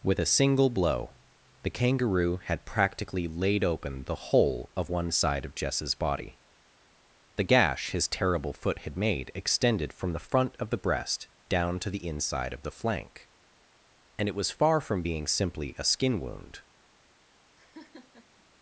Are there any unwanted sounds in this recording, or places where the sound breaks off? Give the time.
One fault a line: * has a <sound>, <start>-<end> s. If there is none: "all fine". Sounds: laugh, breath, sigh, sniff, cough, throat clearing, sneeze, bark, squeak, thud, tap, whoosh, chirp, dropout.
* has a laugh, 17.6-18.4 s